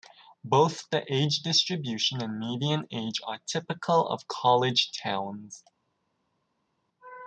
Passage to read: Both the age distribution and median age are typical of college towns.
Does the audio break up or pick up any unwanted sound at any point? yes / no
no